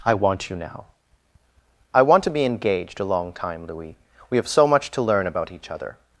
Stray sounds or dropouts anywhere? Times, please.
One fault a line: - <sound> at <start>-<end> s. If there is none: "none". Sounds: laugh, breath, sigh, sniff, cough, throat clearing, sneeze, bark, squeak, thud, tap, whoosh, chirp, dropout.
none